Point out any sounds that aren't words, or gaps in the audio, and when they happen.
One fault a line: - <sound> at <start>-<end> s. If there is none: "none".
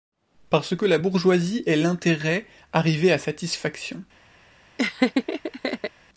- laugh at 4.8-5.9 s